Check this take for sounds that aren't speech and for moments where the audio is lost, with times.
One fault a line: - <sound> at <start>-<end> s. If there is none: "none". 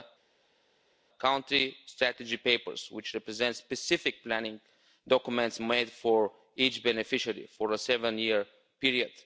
none